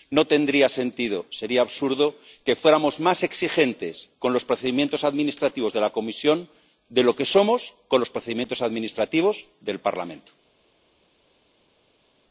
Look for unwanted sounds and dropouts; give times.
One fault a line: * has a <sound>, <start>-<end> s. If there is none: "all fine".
all fine